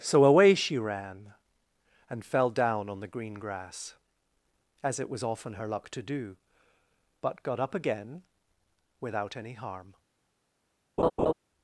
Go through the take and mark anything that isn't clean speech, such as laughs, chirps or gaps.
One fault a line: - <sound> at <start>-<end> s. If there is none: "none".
- laugh at 11.0-11.3 s